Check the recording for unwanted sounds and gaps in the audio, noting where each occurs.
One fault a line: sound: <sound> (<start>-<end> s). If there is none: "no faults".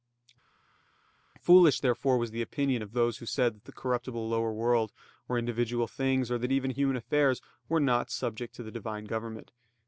no faults